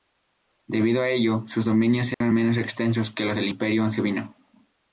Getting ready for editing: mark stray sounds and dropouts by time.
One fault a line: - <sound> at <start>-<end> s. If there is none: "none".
- dropout at 2.1-2.2 s